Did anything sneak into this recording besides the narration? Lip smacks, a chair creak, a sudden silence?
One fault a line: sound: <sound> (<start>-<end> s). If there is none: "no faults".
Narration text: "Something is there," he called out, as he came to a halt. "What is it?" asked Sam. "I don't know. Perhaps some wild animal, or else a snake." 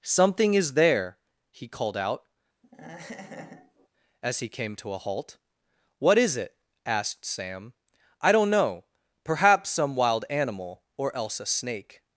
sound: laugh (2.6-3.9 s)